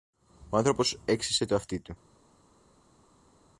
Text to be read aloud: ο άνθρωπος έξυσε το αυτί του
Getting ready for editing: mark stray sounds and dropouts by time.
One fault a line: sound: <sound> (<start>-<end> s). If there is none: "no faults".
no faults